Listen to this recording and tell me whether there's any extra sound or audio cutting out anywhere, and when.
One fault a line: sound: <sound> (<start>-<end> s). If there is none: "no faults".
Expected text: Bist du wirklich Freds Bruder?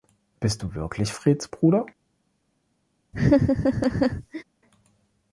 sound: laugh (3.1-4.4 s)